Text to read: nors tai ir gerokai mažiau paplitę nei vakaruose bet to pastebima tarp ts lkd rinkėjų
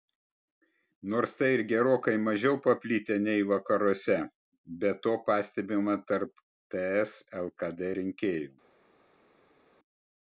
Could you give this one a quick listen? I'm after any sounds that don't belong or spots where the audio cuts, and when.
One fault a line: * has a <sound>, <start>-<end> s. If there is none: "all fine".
all fine